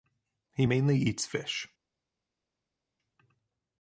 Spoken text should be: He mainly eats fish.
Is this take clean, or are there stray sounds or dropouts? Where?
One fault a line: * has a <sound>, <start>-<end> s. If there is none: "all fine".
all fine